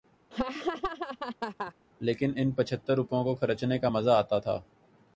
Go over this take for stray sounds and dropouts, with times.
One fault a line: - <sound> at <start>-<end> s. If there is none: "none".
- laugh at 0.3-1.7 s